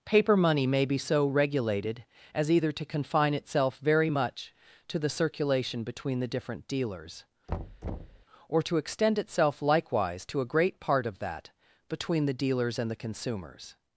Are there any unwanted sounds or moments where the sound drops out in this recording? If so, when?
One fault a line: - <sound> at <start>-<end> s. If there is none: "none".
- thud at 7.5-8.3 s